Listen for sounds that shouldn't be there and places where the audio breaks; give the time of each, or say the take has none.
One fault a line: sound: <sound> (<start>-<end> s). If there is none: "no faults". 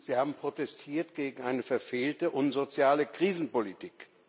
no faults